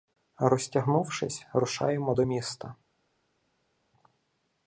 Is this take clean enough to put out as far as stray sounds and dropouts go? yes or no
yes